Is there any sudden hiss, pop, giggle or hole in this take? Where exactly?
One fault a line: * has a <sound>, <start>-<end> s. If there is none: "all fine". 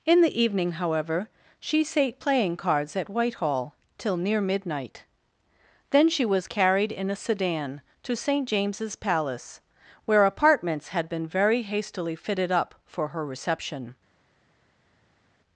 all fine